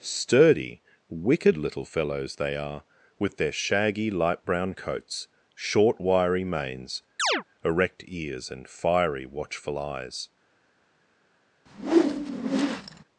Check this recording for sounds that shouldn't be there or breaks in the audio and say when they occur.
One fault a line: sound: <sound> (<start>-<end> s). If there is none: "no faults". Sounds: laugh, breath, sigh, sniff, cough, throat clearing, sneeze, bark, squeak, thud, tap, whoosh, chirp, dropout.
sound: chirp (7.2-7.4 s)
sound: whoosh (11.7-13.0 s)